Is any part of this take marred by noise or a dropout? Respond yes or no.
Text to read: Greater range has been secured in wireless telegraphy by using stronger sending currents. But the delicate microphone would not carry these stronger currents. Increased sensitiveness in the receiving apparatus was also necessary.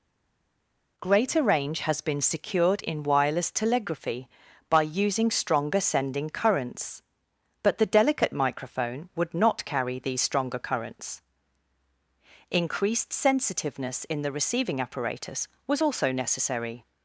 no